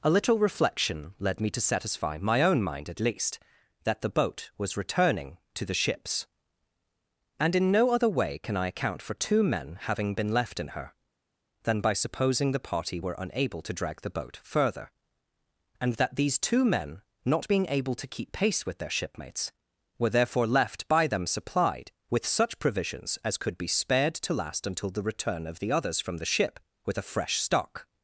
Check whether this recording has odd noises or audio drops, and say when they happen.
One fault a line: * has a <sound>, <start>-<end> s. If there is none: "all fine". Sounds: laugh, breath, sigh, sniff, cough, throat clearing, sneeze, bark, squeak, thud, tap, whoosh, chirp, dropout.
all fine